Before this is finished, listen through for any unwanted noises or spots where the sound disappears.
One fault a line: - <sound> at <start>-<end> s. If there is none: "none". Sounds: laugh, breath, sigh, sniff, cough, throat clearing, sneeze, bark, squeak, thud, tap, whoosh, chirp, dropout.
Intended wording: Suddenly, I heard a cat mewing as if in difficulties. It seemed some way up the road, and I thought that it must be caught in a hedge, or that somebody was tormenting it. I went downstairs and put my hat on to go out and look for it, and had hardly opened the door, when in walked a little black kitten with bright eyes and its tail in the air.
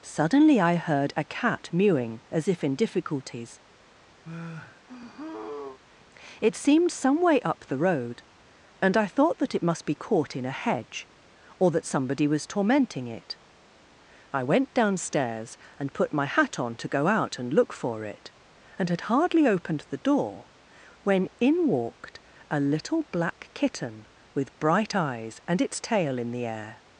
- sigh at 4.2-5.8 s